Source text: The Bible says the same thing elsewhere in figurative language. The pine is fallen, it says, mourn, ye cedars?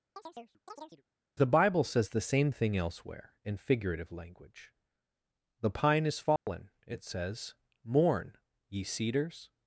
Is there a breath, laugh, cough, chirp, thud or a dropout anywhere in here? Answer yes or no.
yes